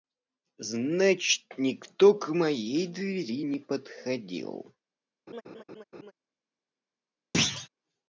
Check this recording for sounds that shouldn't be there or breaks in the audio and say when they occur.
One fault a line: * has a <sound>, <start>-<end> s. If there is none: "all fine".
* has a laugh, 5.3-6.1 s
* has a thud, 7.3-7.7 s